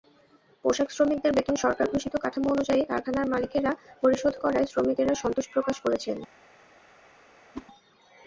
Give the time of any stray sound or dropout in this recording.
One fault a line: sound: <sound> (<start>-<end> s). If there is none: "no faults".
sound: whoosh (7.5-7.7 s)